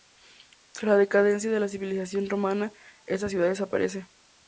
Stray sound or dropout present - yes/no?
no